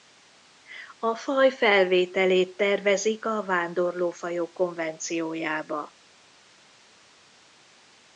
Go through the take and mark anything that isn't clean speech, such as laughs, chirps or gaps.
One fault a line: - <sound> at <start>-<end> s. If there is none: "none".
none